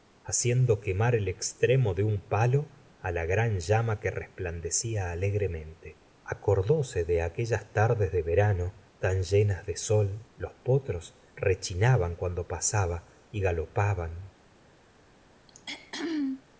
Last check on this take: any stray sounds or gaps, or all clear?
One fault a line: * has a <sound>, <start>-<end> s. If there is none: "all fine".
* has a throat clearing, 15.5-16.4 s